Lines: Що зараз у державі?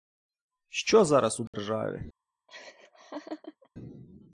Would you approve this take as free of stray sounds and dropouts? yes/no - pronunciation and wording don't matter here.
no